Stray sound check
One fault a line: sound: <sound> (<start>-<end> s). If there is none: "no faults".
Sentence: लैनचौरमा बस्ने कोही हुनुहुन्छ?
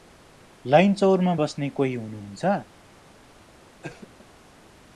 sound: cough (3.8-4.1 s)